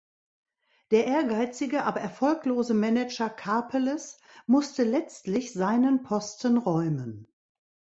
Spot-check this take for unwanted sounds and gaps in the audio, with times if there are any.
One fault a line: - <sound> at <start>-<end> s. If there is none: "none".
none